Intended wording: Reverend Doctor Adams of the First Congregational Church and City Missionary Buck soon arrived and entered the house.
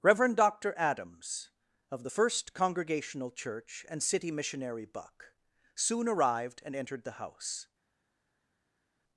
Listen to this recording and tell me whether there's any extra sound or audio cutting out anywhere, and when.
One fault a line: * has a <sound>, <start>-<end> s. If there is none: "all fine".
all fine